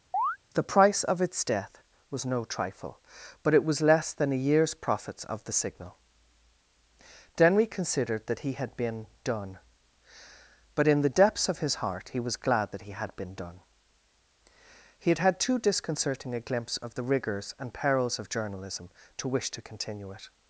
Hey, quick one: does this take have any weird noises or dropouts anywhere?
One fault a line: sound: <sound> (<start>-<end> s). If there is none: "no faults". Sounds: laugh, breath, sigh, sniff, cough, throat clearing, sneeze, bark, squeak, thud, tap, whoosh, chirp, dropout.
sound: chirp (0.1-0.4 s)